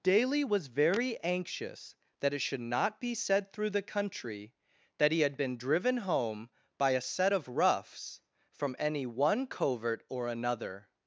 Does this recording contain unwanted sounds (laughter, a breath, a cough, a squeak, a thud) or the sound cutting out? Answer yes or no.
no